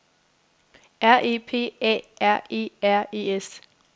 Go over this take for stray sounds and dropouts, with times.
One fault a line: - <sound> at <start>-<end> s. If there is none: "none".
none